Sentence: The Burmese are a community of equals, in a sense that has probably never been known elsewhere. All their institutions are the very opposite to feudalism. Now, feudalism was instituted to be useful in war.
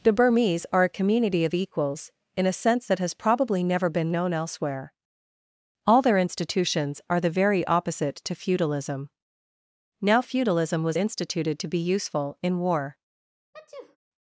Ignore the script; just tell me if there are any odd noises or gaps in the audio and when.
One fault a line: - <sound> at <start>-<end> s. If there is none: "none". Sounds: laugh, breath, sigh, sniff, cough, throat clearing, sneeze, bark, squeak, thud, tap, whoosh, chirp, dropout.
- sneeze at 13.5-14.0 s